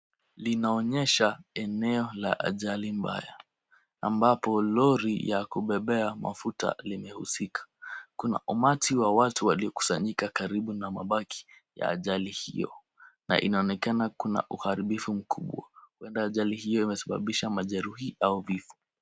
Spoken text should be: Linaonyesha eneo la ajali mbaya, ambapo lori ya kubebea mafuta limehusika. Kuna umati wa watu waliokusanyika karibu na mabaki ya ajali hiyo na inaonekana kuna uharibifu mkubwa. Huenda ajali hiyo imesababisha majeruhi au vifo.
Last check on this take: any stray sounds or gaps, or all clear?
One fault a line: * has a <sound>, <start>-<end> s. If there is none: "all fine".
all fine